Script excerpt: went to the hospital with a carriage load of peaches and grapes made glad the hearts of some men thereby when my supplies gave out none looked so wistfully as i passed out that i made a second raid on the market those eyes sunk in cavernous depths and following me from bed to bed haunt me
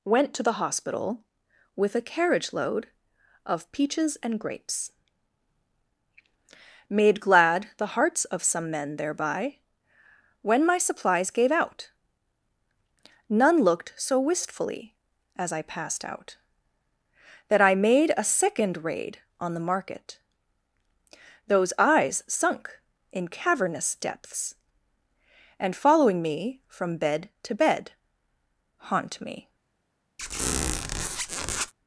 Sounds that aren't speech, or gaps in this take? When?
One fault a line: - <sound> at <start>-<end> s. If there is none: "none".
- squeak at 30.2-31.7 s